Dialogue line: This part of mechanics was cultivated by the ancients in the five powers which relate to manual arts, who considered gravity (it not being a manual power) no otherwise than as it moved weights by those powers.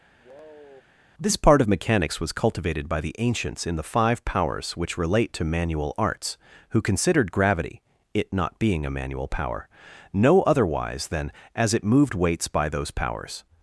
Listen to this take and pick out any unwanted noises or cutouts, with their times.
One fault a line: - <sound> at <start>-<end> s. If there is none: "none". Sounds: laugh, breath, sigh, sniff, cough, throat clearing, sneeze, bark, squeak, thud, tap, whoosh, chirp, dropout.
- sigh at 0.2-0.8 s